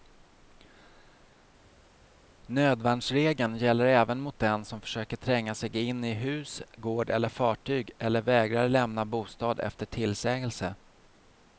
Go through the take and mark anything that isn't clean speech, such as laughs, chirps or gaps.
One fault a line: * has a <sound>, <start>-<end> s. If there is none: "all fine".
all fine